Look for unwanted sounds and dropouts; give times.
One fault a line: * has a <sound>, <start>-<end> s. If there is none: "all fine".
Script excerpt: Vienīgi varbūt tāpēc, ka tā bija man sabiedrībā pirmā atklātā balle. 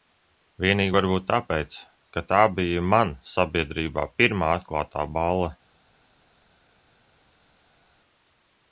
all fine